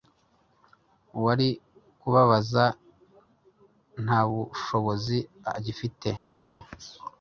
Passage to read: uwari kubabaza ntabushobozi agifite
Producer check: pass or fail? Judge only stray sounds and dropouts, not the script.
pass